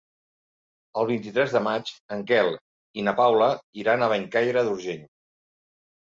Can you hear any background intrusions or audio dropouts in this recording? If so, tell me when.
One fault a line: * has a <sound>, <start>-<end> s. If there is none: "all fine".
all fine